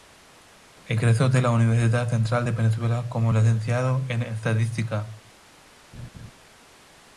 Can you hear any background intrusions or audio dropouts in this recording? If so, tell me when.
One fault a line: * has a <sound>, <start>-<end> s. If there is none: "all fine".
* has a laugh, 5.9-6.3 s